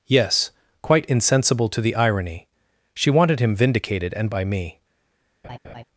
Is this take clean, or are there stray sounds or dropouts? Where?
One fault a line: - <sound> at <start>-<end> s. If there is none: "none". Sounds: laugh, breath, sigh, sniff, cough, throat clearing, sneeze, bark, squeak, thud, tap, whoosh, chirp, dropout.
- laugh at 5.4-5.8 s